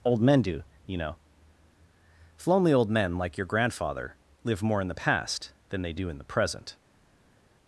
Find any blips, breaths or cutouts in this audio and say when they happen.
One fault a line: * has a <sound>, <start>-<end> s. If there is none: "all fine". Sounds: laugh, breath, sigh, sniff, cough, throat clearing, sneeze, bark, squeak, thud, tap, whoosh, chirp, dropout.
all fine